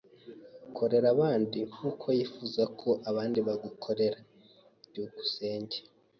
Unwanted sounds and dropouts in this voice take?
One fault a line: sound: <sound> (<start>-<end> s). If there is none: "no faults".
no faults